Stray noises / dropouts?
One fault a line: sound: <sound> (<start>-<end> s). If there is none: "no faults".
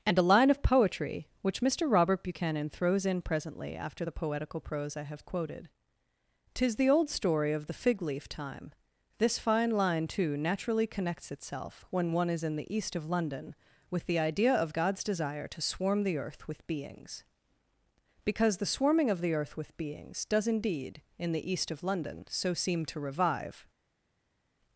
no faults